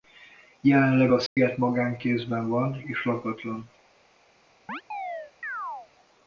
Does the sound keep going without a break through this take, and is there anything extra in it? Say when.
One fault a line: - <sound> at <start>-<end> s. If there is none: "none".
- dropout at 1.3-1.4 s
- chirp at 4.7-5.9 s